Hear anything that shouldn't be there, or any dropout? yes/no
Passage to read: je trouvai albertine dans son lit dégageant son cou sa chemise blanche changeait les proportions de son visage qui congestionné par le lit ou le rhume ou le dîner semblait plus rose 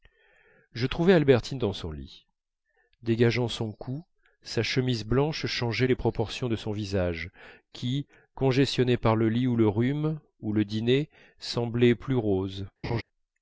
yes